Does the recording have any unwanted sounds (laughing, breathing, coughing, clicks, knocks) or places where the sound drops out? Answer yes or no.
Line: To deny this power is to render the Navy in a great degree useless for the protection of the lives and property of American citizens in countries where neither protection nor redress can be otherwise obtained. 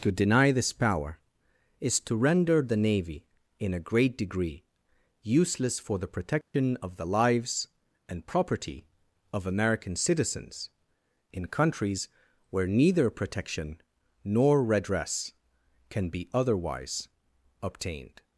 yes